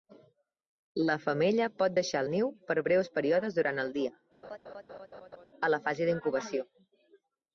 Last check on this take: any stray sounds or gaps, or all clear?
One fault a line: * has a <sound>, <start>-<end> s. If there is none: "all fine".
* has a laugh, 4.4-5.5 s